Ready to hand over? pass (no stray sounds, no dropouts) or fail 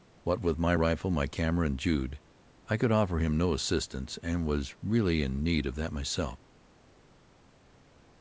pass